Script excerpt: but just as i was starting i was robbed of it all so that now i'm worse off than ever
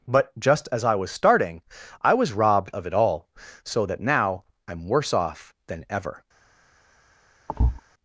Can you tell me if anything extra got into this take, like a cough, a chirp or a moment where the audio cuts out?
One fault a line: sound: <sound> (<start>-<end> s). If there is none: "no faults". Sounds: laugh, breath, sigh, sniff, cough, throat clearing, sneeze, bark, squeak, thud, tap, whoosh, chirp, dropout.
sound: thud (7.5-7.8 s)